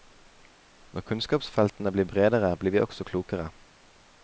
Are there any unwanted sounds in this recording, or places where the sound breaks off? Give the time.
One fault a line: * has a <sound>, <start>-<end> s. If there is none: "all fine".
all fine